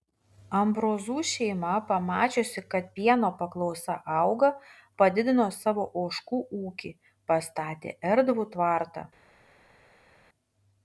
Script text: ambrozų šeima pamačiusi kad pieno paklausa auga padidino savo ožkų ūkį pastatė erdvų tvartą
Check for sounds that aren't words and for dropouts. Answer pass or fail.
pass